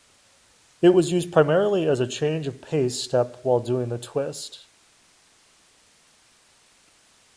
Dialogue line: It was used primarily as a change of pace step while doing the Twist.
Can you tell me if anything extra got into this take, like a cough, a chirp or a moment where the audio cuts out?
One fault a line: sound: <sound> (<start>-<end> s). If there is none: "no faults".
no faults